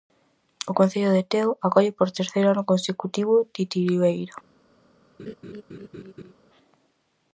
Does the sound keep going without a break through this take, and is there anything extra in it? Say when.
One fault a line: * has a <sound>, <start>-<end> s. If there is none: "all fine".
* has a laugh, 5.2-6.3 s